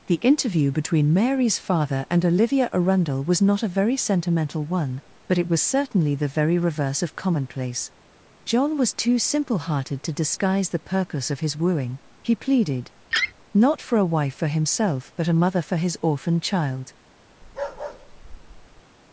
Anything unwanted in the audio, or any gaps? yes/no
yes